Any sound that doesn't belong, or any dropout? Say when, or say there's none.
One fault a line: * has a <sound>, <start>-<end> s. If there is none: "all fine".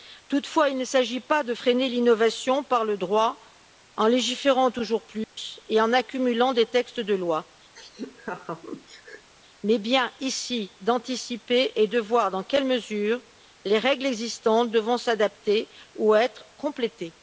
* has a dropout, 5.2-5.4 s
* has a laugh, 7.8-9.3 s